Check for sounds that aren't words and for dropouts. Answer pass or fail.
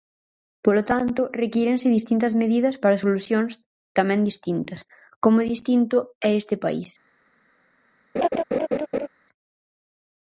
fail